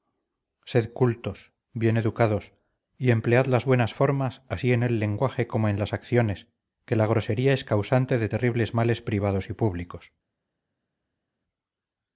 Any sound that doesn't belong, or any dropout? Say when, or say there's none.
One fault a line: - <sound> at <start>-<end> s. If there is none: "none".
none